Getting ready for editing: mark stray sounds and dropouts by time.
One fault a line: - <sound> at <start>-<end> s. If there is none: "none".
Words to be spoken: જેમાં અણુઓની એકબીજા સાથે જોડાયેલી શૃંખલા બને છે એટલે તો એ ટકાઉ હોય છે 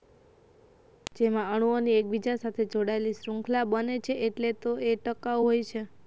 none